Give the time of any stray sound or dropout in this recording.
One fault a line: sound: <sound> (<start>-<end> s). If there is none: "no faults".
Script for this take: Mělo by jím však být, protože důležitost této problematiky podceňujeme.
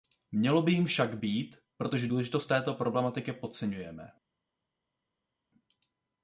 no faults